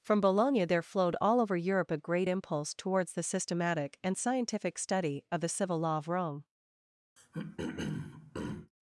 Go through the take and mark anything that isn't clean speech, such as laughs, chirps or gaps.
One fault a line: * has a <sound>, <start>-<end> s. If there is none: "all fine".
* has a throat clearing, 7.2-8.7 s